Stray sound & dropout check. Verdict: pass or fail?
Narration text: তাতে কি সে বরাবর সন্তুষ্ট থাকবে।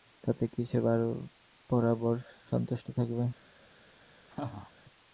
fail